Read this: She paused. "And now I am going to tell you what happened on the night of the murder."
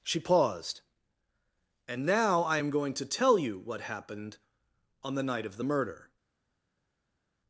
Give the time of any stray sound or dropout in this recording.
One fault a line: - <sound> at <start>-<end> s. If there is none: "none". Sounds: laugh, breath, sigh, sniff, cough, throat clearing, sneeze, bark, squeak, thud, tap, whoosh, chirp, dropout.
none